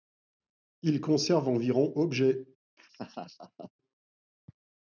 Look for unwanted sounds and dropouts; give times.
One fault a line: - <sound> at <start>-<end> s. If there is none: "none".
- laugh at 2.8-3.7 s